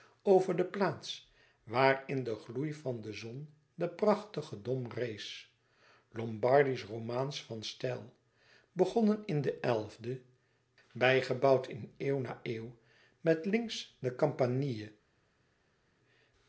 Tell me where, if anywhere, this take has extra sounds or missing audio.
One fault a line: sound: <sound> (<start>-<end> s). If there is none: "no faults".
no faults